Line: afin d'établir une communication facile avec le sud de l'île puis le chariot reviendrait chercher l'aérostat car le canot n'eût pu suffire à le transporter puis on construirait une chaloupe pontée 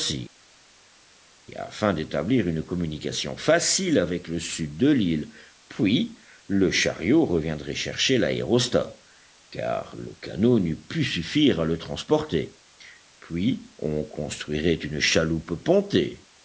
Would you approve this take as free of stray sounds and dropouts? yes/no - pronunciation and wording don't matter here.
yes